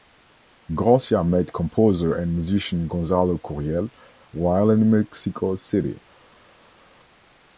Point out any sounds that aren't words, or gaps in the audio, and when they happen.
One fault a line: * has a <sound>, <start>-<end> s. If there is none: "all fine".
all fine